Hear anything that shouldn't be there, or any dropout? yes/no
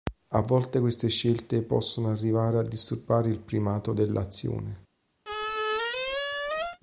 yes